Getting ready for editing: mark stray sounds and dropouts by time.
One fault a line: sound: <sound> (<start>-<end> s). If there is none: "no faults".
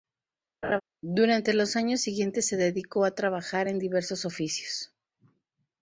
sound: laugh (0.6-0.8 s)